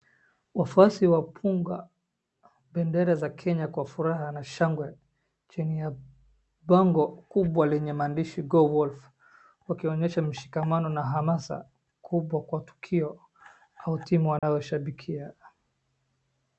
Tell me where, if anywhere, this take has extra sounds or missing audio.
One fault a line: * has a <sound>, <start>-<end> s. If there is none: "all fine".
* has a dropout, 14.4-14.4 s